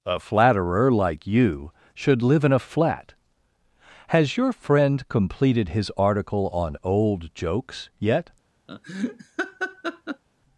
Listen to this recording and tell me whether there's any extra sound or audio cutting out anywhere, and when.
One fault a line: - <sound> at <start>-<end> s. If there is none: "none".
- laugh at 8.7-10.2 s